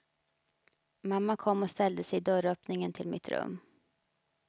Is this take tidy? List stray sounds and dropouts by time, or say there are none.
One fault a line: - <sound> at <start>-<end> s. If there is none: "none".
none